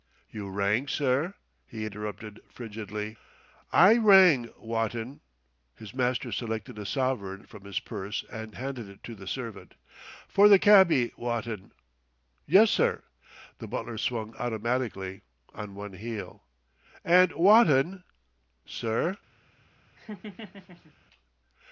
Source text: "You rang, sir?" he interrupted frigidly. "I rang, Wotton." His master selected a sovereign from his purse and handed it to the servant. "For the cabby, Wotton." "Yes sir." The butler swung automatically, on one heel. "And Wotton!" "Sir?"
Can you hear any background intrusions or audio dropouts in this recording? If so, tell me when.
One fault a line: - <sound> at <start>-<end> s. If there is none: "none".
- laugh at 20.0-20.9 s